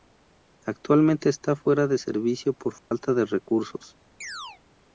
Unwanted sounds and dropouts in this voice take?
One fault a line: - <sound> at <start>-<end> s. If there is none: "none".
- dropout at 2.8-2.9 s
- chirp at 4.2-4.6 s